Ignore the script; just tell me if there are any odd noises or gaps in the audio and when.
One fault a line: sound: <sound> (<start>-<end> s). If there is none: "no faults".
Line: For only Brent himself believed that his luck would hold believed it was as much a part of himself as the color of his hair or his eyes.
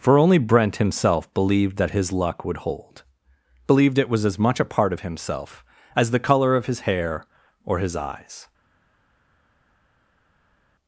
no faults